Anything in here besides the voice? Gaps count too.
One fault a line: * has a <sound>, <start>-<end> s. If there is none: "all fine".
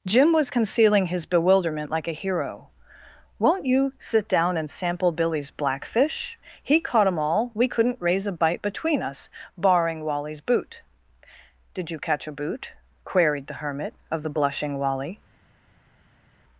all fine